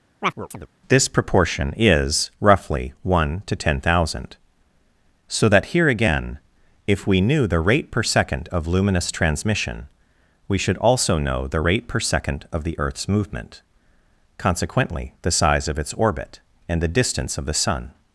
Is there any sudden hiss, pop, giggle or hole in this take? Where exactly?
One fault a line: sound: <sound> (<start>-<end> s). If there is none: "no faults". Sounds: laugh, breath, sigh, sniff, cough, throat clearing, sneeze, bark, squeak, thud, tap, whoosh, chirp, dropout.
sound: chirp (0.2-0.7 s)